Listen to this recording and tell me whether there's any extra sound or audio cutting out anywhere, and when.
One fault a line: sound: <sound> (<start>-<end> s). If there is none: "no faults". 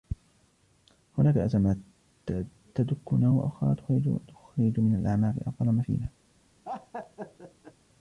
sound: laugh (6.6-7.7 s)